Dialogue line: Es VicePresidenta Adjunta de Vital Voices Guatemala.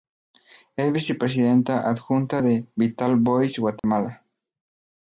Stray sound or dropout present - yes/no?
yes